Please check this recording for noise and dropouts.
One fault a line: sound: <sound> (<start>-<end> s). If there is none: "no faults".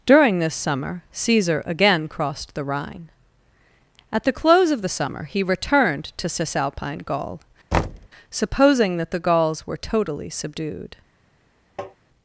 sound: thud (7.7-8.1 s)
sound: tap (11.8-12.0 s)